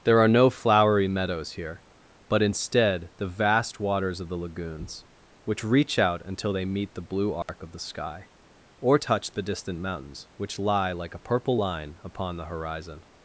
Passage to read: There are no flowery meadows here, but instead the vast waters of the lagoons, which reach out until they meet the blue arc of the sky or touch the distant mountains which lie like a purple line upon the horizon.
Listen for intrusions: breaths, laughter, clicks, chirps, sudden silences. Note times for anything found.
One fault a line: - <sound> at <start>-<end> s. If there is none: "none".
- dropout at 7.4-7.5 s